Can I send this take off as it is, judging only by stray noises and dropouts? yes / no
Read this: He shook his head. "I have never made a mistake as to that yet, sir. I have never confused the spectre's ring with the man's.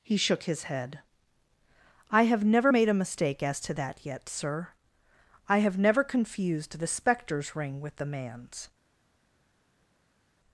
yes